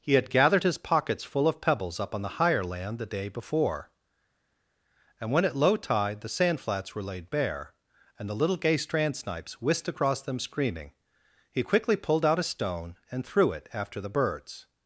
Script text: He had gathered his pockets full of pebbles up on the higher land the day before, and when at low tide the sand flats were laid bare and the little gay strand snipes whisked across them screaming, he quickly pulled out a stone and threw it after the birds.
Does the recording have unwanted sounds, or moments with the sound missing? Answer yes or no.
no